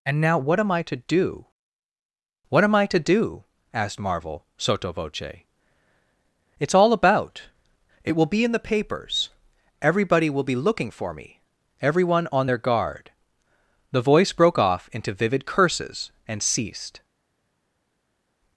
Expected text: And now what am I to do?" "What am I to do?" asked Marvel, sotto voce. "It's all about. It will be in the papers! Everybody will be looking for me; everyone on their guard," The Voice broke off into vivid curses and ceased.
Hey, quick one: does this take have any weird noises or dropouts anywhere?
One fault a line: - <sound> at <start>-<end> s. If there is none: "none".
none